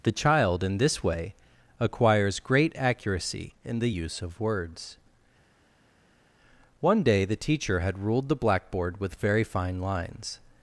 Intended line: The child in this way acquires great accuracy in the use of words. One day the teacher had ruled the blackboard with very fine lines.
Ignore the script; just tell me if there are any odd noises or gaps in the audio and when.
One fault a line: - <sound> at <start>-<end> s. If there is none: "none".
none